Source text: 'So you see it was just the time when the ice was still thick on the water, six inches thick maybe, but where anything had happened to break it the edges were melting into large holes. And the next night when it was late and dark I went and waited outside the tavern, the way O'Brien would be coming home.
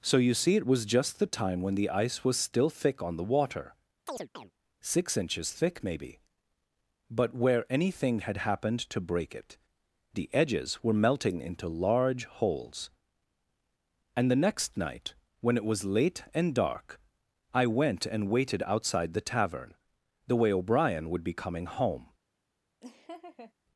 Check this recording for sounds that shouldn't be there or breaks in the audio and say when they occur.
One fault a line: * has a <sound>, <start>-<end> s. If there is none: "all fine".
* has a chirp, 4.1-4.5 s
* has a laugh, 22.8-23.5 s